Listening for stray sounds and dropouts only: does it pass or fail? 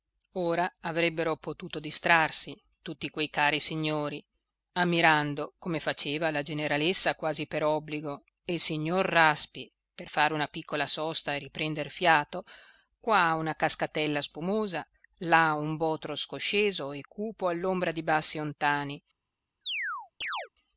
fail